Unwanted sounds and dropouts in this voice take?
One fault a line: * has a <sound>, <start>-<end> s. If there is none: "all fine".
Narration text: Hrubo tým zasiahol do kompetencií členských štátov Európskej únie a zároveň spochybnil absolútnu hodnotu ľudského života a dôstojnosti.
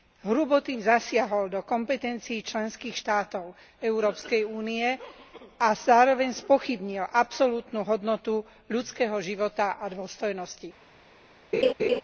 * has a laugh, 11.5-12.0 s